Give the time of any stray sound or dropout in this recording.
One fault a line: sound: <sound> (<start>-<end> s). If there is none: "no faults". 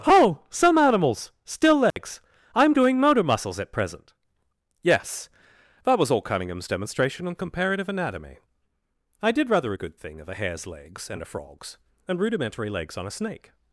sound: dropout (1.9-2.0 s)